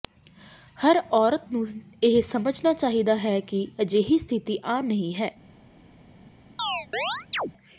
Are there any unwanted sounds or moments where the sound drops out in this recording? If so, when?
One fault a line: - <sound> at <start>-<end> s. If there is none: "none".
- chirp at 6.6-7.5 s